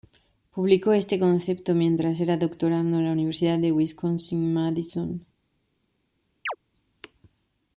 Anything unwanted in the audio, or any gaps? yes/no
yes